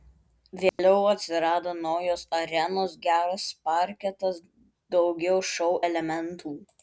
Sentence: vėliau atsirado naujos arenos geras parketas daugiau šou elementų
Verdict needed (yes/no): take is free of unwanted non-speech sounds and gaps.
no